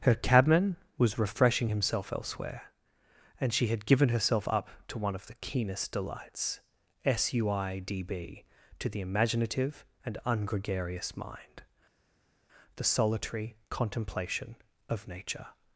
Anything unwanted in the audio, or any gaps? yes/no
no